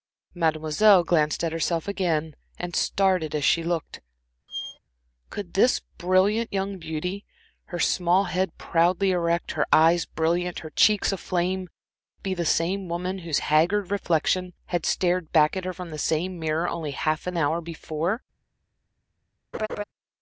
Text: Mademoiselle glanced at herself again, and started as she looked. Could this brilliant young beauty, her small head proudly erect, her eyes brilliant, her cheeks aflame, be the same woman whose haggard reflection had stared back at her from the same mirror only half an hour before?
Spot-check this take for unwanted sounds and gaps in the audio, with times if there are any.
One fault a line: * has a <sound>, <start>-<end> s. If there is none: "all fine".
* has a squeak, 4.5-4.8 s
* has a laugh, 19.5-19.8 s